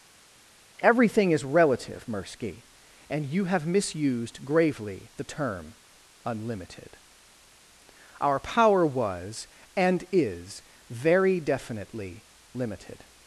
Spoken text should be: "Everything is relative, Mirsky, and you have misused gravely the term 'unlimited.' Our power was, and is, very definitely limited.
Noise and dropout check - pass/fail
pass